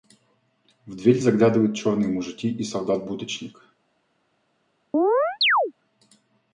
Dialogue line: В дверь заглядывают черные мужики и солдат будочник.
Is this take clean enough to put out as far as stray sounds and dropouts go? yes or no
no